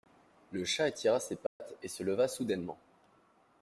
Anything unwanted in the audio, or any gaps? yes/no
yes